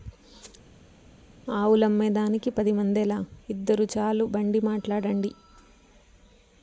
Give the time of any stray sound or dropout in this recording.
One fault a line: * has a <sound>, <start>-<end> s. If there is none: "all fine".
all fine